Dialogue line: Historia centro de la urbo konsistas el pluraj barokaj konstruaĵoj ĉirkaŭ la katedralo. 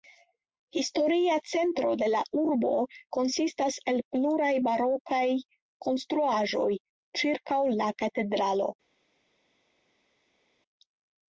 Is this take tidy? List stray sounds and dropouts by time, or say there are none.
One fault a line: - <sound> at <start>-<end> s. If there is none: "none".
none